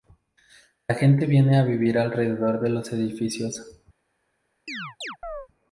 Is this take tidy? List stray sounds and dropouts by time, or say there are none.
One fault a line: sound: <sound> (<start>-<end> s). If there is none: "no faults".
sound: chirp (4.7-5.5 s)